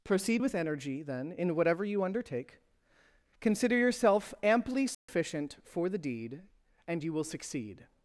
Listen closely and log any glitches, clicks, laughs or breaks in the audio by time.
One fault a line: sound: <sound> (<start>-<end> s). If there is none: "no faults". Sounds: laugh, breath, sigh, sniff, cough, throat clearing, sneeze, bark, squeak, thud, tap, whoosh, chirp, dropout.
sound: dropout (4.9-5.1 s)